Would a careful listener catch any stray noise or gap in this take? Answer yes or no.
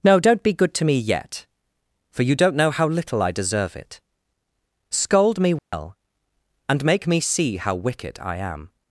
yes